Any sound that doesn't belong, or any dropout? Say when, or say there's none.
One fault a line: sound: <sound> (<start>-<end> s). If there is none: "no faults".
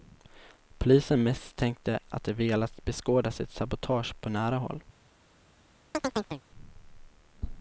sound: chirp (5.9-6.4 s)